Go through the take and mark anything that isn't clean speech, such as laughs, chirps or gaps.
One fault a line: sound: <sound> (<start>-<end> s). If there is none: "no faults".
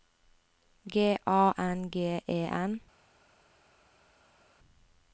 no faults